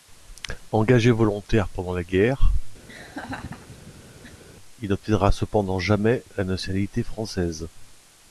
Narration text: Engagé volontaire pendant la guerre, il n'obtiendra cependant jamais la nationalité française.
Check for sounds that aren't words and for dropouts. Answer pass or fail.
fail